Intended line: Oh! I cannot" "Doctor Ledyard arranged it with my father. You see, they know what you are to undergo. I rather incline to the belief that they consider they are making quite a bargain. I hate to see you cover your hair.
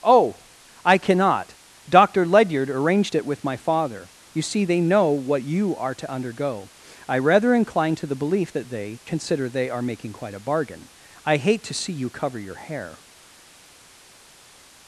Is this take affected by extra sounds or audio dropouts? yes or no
no